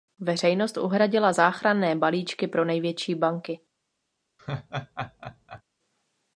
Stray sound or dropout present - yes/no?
yes